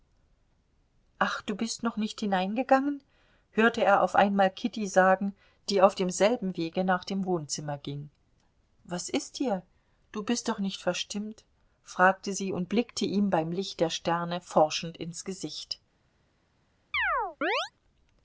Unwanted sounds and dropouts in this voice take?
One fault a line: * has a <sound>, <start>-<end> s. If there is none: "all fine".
* has a chirp, 16.9-17.7 s